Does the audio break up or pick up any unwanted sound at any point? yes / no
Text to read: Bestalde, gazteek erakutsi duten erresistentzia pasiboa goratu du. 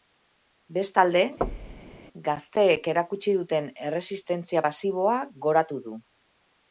yes